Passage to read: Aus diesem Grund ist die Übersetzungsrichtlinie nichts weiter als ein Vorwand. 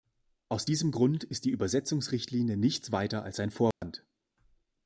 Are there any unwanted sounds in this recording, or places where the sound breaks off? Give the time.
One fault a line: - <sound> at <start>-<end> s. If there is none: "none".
- dropout at 3.7-3.8 s